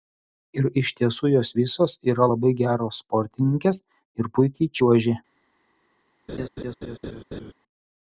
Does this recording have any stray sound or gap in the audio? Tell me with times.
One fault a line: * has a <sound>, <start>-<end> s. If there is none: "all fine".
* has a laugh, 6.3-7.5 s